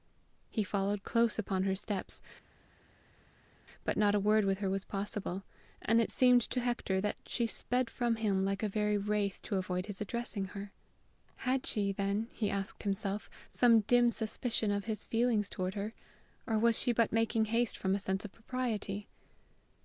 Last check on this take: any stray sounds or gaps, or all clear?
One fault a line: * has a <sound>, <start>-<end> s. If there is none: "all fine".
all fine